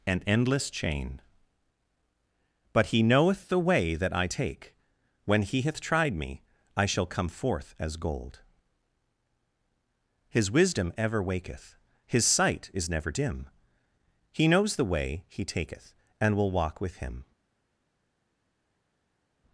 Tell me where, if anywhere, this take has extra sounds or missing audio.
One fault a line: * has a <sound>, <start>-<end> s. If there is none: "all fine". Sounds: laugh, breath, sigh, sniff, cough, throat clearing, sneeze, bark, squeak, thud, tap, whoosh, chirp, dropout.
all fine